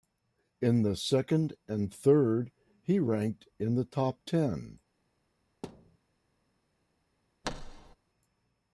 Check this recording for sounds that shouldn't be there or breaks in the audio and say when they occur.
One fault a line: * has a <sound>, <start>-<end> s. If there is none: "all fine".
* has a thud, 5.6-6.0 s
* has a thud, 7.4-8.0 s